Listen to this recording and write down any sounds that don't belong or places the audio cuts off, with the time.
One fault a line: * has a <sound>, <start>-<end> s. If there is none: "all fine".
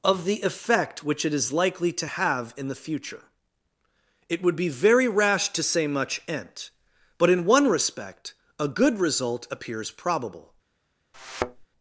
* has a thud, 11.1-11.7 s